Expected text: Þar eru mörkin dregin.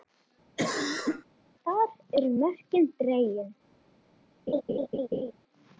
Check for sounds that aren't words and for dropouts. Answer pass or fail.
fail